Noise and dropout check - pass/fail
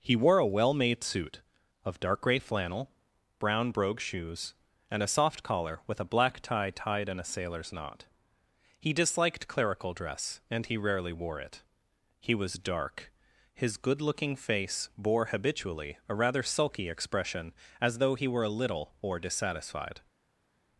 pass